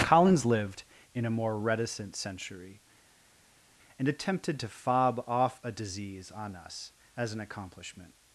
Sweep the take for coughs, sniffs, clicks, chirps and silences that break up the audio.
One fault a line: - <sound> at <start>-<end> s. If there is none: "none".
none